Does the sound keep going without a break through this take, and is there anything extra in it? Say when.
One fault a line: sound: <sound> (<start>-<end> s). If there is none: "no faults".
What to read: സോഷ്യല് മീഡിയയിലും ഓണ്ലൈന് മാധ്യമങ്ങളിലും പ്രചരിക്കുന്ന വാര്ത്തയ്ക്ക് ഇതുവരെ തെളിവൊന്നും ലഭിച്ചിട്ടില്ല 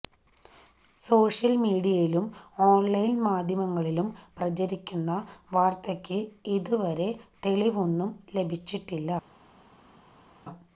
no faults